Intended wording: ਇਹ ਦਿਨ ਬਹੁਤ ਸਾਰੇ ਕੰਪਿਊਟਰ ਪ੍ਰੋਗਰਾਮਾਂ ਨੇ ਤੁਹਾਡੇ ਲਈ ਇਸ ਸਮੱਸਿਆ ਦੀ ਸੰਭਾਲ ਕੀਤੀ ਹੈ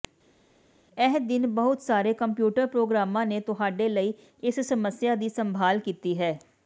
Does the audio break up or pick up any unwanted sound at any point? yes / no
no